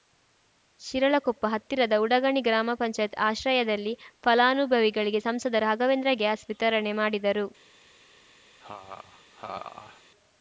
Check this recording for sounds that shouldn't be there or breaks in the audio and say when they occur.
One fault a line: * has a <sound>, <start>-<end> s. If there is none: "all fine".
* has a laugh, 8.6-10.0 s